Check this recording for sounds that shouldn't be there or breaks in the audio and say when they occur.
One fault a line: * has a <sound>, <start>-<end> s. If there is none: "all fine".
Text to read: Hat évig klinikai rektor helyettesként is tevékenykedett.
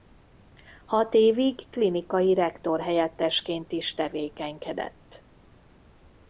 all fine